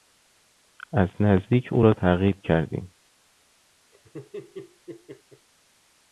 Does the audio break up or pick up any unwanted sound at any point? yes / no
yes